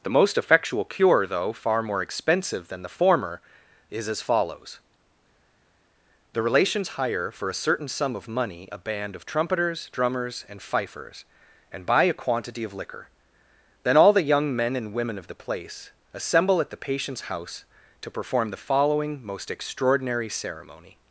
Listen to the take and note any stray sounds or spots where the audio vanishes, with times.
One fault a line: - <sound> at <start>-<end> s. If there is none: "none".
none